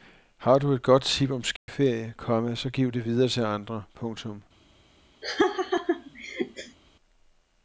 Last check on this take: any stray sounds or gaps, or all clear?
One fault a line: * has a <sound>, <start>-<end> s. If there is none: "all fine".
* has a dropout, 1.6-1.7 s
* has a laugh, 5.2-6.8 s